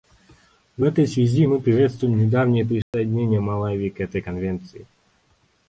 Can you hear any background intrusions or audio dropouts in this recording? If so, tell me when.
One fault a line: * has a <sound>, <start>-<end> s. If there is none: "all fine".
* has a dropout, 2.8-2.9 s